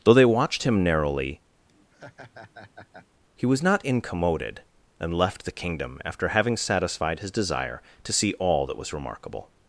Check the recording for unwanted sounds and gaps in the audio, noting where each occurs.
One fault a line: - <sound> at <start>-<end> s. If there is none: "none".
- laugh at 1.7-3.1 s